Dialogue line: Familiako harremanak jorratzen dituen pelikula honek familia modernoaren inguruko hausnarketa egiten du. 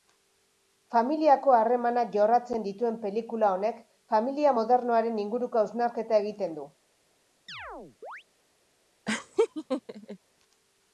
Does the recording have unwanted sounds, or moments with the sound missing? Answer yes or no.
yes